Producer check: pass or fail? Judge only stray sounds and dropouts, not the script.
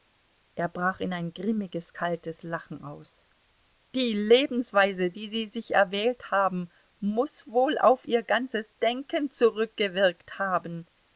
pass